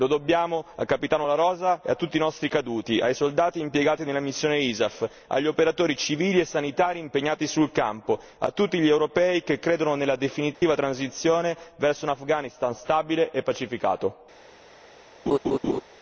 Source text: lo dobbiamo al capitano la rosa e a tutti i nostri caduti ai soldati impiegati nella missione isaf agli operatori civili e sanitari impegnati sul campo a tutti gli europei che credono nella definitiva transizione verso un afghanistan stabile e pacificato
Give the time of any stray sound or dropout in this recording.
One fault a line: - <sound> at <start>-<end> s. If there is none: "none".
- dropout at 10.5-10.6 s
- laugh at 15.3-15.8 s